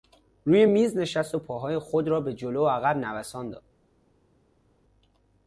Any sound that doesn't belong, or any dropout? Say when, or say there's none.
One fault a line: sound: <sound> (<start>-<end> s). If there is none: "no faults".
no faults